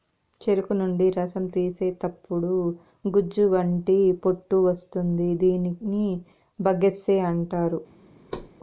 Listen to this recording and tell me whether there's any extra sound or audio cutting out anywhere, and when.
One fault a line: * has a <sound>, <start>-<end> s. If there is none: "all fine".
* has a thud, 8.3-8.5 s